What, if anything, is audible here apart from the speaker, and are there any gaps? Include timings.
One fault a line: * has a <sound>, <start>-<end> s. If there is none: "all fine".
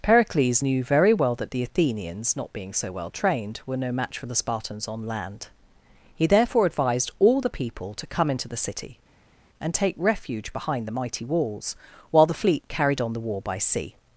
all fine